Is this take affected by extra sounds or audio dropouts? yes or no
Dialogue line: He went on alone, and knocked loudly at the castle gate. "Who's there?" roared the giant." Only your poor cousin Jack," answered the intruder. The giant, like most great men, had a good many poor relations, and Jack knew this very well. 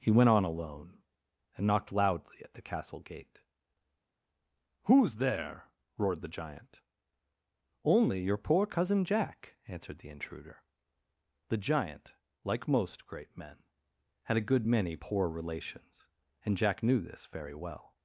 no